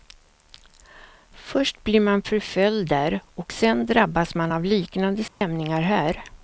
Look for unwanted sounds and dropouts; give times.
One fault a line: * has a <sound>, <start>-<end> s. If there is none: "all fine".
* has a dropout, 5.3-5.4 s